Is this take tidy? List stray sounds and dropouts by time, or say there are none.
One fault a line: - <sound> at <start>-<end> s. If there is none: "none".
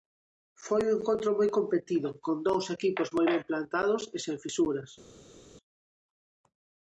none